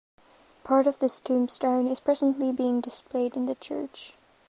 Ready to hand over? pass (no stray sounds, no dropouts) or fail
pass